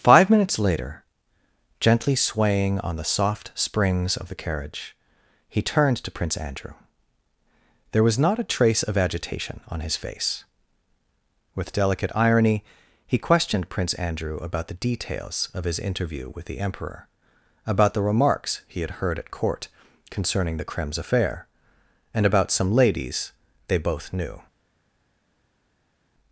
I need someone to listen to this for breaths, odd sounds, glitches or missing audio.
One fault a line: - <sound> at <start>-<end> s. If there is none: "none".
none